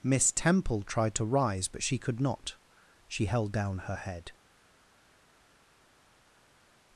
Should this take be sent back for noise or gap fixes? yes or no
no